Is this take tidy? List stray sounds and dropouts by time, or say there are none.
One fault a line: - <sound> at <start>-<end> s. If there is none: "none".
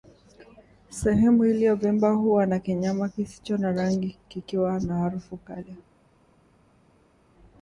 none